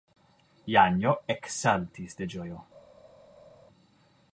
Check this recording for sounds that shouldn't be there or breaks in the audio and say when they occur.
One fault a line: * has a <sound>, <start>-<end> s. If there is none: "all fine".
all fine